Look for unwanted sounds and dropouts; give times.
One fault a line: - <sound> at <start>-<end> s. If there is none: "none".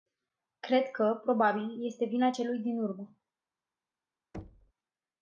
- thud at 4.3-4.7 s